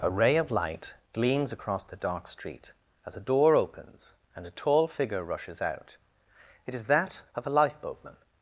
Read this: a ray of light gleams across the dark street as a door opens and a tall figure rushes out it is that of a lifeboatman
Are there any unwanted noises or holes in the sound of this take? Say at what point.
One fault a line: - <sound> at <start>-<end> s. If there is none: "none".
none